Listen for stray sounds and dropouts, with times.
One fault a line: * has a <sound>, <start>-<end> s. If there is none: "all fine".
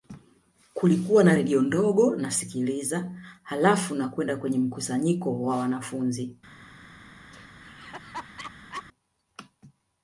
* has a laugh, 7.3-8.8 s